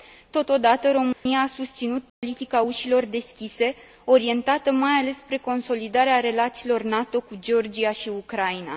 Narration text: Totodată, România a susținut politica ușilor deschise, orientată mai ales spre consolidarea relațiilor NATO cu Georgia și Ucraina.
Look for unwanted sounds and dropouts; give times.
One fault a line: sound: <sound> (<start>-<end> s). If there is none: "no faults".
sound: dropout (1.1-1.3 s)
sound: dropout (2.1-2.2 s)